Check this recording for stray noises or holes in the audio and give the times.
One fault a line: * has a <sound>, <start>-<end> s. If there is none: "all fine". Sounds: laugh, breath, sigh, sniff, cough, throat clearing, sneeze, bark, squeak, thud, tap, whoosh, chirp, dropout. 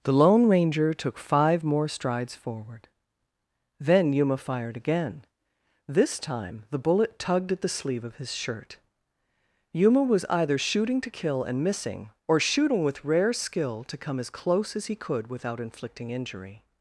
all fine